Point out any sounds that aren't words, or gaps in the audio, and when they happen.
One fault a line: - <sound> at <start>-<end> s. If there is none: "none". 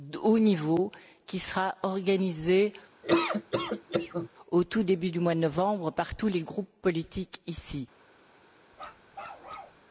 - laugh at 3.0-4.3 s
- bark at 8.7-9.8 s